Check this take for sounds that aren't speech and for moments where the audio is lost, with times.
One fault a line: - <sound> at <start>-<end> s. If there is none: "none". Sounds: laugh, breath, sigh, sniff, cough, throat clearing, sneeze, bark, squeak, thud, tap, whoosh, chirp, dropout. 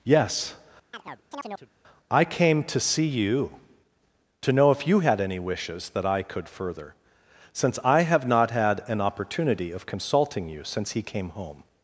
- chirp at 0.9-1.7 s